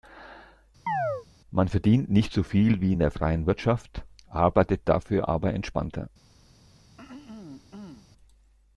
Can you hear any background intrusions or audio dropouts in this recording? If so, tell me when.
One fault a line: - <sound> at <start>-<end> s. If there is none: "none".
- chirp at 0.9-1.3 s
- throat clearing at 7.0-8.1 s